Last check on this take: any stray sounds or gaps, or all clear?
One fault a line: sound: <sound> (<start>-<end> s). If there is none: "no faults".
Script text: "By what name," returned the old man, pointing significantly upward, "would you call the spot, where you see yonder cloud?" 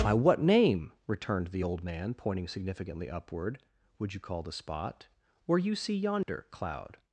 sound: dropout (6.2-6.3 s)